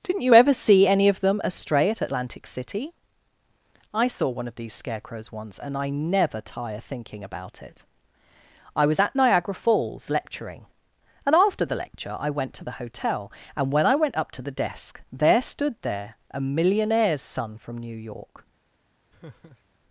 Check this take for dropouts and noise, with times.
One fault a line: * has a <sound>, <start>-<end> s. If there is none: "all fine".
* has a laugh, 19.1-19.8 s